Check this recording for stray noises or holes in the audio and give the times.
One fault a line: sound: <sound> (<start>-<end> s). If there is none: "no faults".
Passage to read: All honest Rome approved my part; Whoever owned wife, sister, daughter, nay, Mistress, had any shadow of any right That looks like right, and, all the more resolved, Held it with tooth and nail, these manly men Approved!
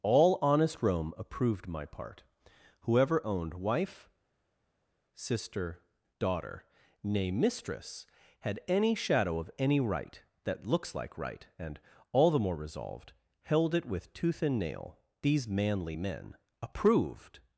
no faults